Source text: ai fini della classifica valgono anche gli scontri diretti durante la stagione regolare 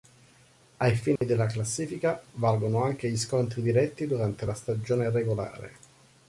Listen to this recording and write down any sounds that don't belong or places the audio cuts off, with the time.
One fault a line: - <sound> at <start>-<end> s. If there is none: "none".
- dropout at 1.2-1.2 s